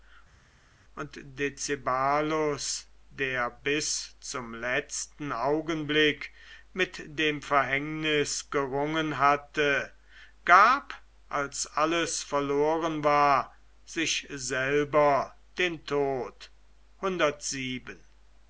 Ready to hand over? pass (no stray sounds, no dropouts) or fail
pass